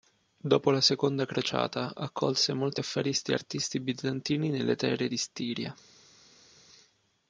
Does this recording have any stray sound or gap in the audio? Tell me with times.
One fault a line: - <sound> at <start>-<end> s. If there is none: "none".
none